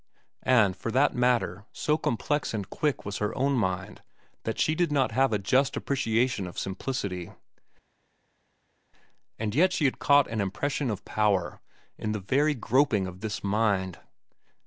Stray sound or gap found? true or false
false